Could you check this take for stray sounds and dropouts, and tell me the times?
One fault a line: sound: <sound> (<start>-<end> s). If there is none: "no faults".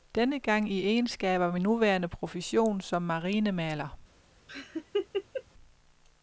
sound: laugh (4.5-5.4 s)